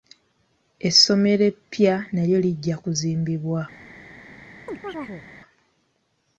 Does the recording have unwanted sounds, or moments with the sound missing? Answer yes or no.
yes